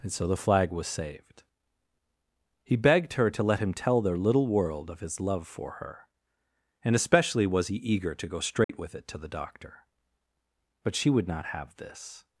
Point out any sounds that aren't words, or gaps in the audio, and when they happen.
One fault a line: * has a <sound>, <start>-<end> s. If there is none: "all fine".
* has a dropout, 8.6-8.7 s